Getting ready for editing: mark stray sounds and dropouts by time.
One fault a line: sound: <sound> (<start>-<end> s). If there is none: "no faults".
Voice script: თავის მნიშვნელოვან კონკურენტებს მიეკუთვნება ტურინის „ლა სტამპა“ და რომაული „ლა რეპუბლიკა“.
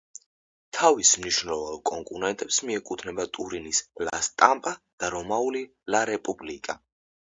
no faults